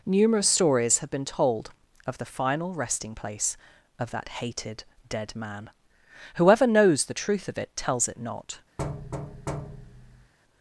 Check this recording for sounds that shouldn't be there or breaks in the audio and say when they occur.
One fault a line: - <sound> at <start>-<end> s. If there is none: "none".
- thud at 8.8-10.3 s